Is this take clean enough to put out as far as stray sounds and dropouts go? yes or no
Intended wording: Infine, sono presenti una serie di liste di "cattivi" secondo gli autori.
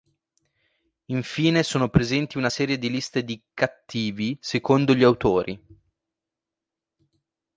yes